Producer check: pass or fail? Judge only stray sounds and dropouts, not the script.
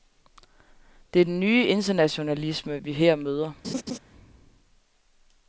fail